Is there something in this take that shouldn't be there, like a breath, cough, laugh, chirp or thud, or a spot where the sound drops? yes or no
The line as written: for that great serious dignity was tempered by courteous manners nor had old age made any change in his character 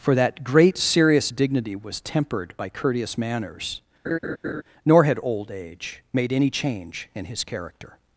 yes